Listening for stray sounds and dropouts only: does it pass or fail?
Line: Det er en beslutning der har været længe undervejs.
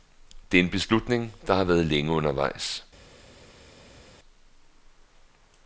pass